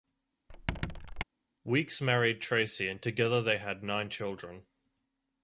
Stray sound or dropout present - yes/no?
yes